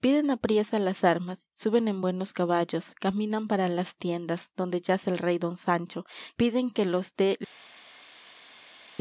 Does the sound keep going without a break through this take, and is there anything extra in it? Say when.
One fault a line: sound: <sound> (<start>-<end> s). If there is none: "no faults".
no faults